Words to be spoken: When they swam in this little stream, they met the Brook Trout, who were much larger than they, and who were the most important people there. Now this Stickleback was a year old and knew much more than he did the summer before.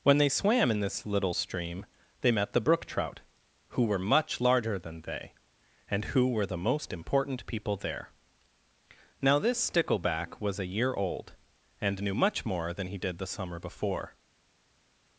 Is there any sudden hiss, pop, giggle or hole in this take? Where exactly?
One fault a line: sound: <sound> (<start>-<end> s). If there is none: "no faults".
no faults